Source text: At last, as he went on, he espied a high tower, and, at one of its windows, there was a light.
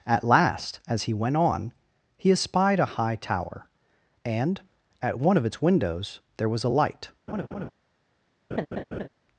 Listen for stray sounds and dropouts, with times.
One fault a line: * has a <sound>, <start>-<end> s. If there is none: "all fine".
* has a laugh, 7.3-7.7 s
* has a laugh, 8.5-9.1 s